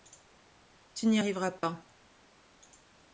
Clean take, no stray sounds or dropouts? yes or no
no